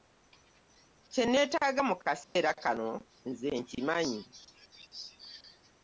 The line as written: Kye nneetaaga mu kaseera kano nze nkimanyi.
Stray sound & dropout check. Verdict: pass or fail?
fail